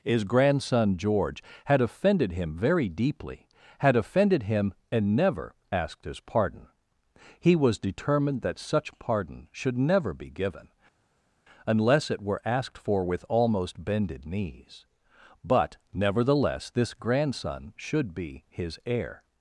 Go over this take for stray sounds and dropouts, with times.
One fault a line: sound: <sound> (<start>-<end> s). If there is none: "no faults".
no faults